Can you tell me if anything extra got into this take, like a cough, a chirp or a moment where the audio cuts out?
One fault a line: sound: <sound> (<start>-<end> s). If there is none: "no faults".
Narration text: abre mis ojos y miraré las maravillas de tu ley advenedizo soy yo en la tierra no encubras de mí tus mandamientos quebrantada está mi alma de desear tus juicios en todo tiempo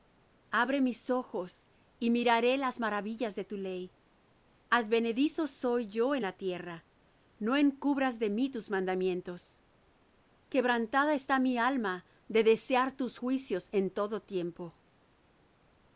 no faults